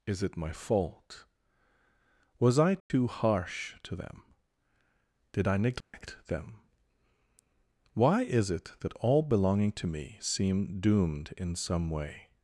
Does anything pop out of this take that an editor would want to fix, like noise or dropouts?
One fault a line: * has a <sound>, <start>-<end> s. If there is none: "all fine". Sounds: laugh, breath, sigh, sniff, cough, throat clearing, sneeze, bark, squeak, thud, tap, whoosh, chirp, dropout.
* has a dropout, 2.8-2.9 s
* has a dropout, 5.8-5.9 s